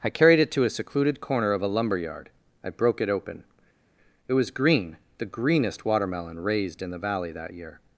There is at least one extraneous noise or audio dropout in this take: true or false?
false